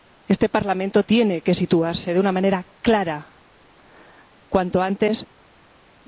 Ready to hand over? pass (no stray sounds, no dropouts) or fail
pass